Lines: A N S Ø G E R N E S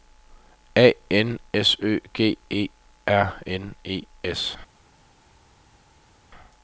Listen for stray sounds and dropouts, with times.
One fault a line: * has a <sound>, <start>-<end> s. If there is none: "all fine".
all fine